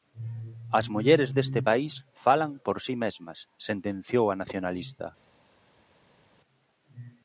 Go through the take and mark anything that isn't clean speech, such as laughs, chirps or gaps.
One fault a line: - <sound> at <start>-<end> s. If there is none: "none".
none